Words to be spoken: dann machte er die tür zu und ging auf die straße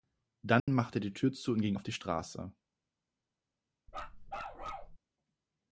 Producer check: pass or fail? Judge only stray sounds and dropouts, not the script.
fail